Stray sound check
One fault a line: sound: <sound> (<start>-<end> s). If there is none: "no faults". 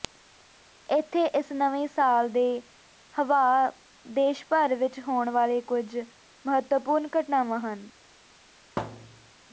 sound: thud (8.8-9.3 s)